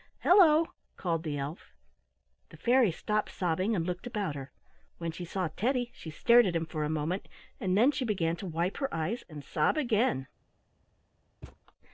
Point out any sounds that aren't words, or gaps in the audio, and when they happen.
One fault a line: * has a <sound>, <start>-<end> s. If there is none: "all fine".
* has a thud, 11.4-11.6 s